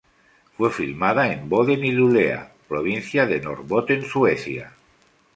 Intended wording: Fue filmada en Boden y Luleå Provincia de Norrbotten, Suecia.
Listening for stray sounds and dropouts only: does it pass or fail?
pass